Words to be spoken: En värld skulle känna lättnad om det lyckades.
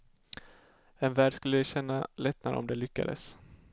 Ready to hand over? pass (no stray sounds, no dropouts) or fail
pass